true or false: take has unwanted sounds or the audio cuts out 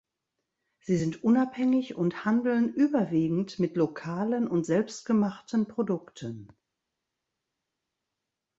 false